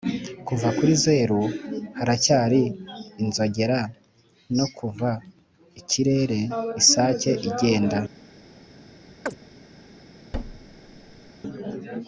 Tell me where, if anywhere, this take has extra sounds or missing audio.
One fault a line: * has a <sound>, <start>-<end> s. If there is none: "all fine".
* has a chirp, 9.3-9.4 s
* has a thud, 10.3-11.3 s